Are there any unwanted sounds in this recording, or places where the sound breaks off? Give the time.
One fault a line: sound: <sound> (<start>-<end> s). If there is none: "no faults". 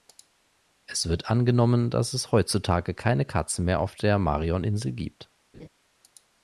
sound: laugh (5.5-5.7 s)